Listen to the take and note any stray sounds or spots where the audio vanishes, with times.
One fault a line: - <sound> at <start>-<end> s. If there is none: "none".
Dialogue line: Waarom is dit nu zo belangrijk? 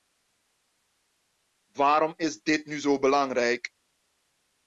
none